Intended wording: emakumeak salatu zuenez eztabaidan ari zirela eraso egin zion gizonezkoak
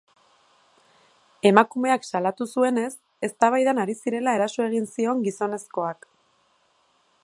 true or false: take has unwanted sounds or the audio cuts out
false